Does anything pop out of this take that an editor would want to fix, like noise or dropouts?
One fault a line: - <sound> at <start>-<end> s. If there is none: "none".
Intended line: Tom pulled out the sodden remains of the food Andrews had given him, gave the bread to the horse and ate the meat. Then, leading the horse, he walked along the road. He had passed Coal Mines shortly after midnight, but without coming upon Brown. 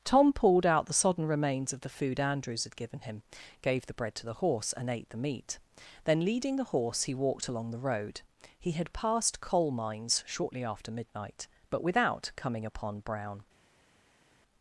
none